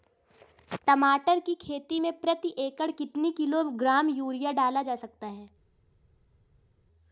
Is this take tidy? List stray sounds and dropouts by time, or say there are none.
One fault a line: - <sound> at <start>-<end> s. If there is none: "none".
none